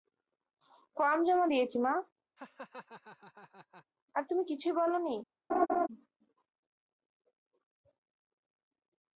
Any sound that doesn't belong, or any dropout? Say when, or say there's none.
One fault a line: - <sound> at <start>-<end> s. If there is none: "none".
- laugh at 2.4-3.9 s
- laugh at 5.5-5.9 s